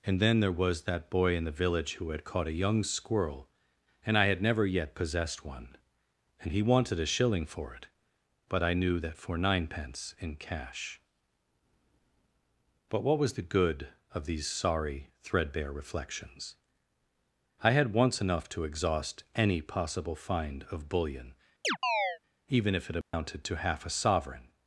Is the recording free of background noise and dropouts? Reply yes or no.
no